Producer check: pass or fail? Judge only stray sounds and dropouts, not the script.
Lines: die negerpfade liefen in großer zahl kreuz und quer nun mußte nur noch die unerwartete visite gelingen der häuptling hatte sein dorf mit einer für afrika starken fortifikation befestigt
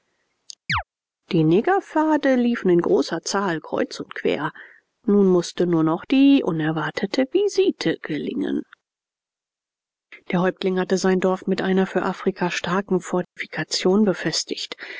fail